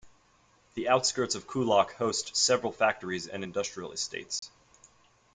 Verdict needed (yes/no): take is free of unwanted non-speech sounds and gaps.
no